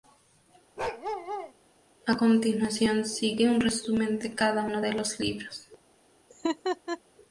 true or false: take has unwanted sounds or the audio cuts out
true